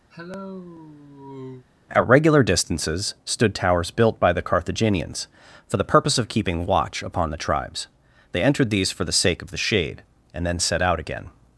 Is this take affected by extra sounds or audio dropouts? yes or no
yes